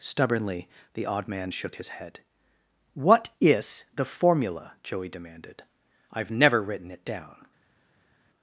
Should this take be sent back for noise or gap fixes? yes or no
no